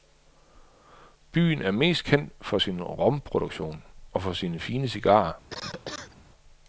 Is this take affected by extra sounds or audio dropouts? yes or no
yes